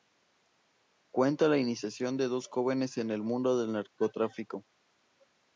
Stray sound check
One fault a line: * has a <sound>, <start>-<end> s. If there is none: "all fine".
all fine